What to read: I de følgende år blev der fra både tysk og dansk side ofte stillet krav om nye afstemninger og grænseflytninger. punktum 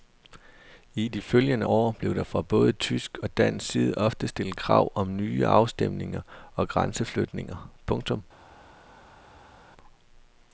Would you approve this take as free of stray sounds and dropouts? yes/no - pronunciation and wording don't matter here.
yes